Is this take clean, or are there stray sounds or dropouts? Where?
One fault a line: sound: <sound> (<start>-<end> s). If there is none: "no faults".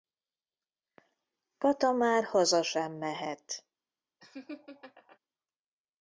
sound: laugh (4.2-5.2 s)